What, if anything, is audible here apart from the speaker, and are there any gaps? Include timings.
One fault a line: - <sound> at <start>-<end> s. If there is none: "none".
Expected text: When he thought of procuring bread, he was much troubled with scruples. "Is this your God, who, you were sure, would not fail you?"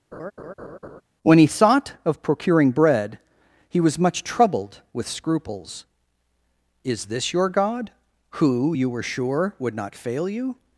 - laugh at 0.1-1.0 s